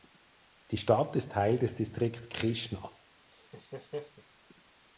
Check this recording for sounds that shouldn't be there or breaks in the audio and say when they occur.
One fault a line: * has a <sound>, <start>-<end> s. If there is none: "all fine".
* has a laugh, 3.3-4.2 s